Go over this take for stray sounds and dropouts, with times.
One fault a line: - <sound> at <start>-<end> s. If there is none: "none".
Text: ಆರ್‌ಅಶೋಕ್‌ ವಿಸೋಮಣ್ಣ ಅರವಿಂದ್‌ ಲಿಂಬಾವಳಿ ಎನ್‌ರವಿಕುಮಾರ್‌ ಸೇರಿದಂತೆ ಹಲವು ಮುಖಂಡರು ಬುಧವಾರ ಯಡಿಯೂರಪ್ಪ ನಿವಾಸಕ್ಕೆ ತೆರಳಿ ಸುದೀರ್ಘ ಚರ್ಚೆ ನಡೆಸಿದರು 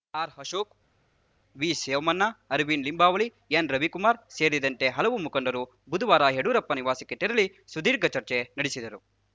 none